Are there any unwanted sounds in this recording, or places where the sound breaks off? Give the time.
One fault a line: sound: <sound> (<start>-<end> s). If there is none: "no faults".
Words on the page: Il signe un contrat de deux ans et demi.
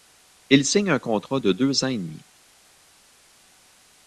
no faults